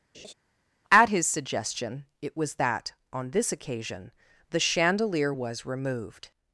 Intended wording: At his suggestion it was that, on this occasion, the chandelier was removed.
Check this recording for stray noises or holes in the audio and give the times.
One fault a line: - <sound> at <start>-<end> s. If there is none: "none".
- laugh at 0.1-0.3 s